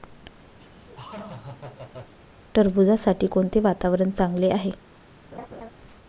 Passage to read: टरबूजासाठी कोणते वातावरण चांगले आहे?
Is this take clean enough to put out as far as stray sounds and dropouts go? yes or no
no